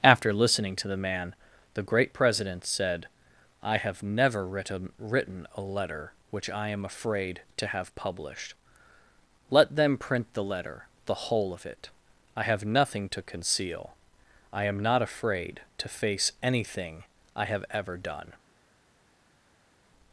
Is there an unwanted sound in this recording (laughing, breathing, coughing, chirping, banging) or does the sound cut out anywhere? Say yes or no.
no